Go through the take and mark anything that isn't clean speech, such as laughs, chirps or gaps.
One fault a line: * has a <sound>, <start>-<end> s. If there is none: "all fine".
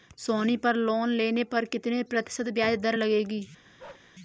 * has a bark, 3.8-4.1 s